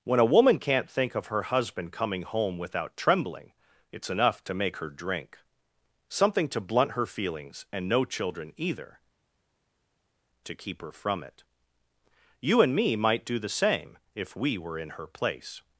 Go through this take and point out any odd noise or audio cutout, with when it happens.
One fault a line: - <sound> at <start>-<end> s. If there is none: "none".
none